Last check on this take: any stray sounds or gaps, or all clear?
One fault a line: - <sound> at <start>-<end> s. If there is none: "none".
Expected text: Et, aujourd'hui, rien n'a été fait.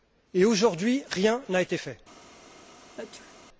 - sneeze at 3.0-3.4 s